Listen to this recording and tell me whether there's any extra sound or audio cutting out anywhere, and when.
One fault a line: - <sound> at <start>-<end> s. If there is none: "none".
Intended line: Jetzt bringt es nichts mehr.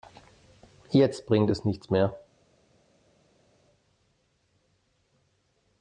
none